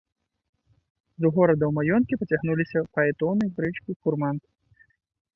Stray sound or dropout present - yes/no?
no